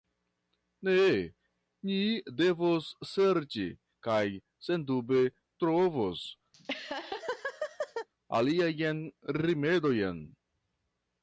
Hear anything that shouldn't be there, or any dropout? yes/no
yes